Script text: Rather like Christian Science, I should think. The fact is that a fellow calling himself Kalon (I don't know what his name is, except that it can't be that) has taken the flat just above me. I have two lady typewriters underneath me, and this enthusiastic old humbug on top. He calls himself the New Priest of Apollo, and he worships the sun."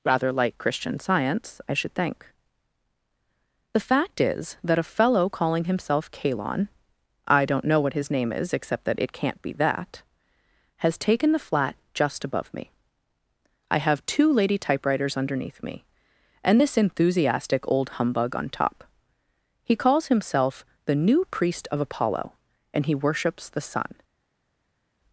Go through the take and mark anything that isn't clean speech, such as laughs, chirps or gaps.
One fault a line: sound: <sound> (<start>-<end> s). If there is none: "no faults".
no faults